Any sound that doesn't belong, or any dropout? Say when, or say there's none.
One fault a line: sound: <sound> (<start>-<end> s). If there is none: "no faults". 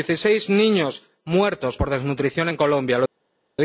no faults